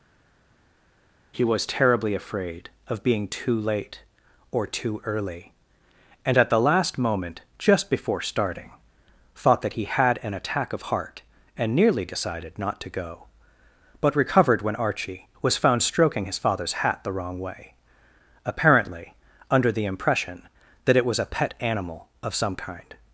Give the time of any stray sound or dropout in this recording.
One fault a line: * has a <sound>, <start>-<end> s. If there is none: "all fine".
all fine